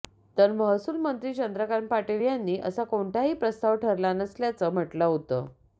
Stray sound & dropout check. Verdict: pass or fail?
pass